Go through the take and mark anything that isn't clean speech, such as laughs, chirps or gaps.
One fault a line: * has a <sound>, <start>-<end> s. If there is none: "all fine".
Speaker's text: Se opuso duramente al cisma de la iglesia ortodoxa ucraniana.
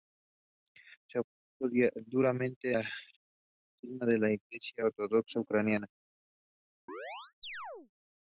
* has a chirp, 6.9-7.9 s